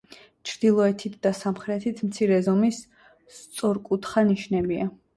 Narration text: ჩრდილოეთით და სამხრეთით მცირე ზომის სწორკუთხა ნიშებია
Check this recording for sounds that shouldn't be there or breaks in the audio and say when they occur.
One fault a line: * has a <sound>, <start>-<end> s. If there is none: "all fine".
all fine